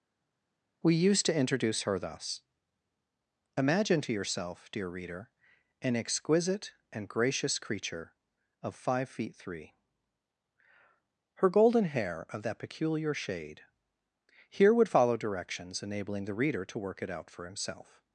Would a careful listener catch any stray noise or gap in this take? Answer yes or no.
no